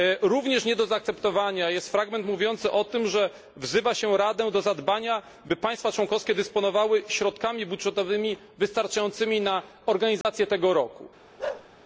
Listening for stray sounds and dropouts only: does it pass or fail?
fail